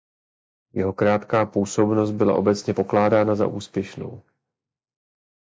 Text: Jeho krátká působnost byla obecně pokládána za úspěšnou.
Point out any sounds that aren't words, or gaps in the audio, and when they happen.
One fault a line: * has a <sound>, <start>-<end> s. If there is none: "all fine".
all fine